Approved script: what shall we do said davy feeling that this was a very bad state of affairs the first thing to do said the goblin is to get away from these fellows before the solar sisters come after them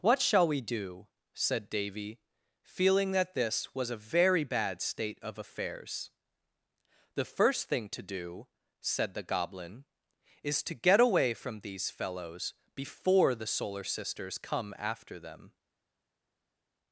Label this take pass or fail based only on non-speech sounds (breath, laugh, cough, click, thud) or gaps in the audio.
pass